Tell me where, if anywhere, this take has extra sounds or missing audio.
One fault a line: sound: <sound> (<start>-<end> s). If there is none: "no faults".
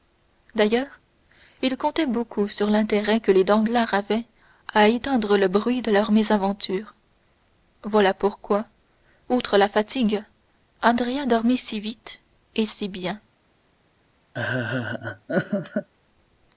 sound: laugh (14.3-15.9 s)